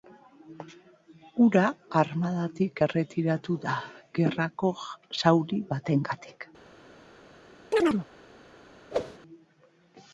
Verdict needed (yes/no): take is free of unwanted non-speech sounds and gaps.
no